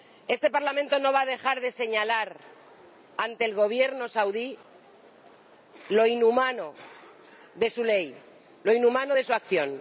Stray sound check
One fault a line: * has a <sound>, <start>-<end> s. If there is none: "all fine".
all fine